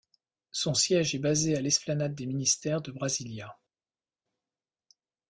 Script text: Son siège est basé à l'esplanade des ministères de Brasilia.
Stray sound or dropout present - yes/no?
no